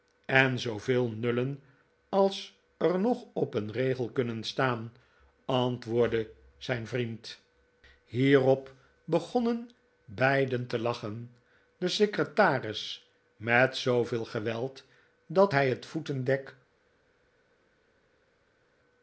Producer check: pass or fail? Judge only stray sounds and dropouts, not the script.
pass